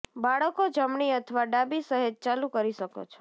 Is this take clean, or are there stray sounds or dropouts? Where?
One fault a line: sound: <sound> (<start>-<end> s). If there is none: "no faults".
no faults